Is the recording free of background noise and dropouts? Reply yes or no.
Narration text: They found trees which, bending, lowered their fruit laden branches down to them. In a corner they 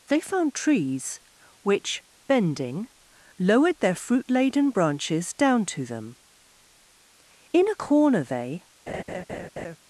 no